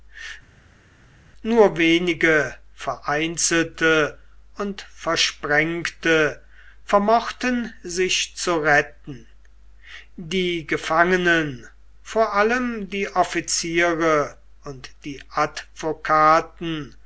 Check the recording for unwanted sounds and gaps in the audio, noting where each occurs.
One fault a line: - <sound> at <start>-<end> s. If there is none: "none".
none